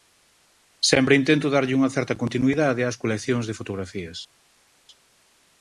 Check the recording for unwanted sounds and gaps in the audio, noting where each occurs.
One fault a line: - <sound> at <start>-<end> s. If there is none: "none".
none